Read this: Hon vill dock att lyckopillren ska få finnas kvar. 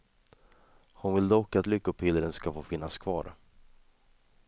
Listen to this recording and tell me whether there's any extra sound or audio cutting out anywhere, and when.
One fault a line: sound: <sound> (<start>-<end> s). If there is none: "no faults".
no faults